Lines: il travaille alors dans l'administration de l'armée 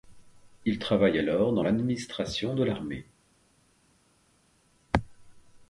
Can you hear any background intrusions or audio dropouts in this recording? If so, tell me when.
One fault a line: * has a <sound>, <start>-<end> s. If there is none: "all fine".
all fine